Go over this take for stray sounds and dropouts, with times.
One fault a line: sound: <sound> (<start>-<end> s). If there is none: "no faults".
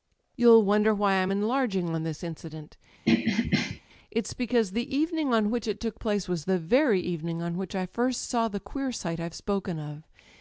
sound: throat clearing (3.0-3.8 s)